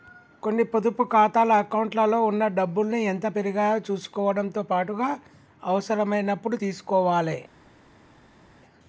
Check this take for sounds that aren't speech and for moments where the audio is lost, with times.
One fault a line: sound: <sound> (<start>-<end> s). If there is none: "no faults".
no faults